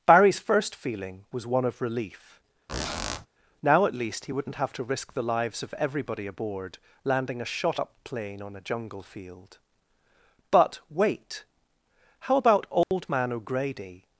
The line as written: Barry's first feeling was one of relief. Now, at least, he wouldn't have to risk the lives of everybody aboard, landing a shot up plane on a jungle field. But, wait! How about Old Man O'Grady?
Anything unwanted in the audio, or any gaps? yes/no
yes